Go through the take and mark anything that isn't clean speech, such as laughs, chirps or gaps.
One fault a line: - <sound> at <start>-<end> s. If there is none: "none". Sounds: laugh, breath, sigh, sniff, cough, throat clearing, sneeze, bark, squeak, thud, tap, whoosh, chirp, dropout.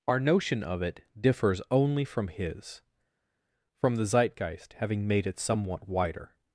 none